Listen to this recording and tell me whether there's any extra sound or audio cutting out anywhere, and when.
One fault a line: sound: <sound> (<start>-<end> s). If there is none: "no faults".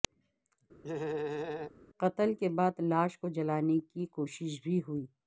sound: laugh (0.8-1.7 s)